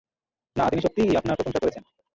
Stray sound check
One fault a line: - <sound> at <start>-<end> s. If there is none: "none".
none